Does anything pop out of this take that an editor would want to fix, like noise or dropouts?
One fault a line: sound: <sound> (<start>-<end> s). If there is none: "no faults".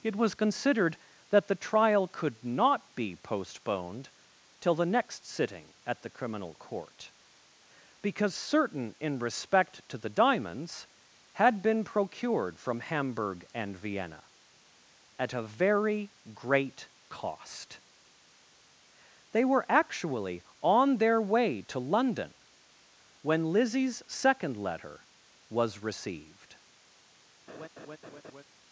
sound: laugh (27.5-28.4 s)